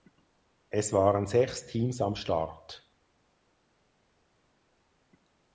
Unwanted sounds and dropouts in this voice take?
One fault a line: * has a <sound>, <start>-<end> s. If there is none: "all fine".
all fine